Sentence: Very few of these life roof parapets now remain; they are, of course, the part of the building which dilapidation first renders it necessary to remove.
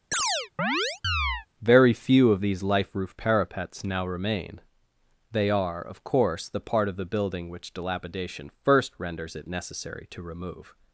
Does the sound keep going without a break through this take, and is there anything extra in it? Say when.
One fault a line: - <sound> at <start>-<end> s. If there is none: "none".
- chirp at 0.1-1.5 s